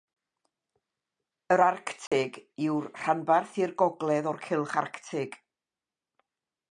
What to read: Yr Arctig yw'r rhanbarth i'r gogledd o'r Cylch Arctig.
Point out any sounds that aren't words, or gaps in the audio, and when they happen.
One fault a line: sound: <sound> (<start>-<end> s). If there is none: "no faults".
sound: dropout (2.1-2.1 s)